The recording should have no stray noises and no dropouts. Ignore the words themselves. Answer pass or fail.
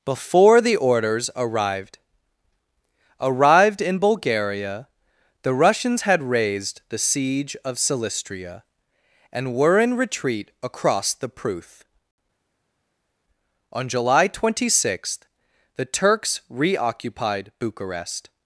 pass